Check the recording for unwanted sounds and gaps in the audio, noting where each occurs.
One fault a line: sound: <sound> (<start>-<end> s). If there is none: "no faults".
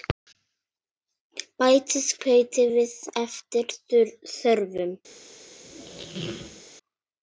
sound: squeak (5.6-6.6 s)